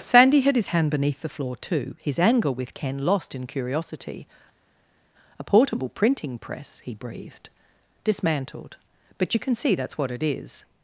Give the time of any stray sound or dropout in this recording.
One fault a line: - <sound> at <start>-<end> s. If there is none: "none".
none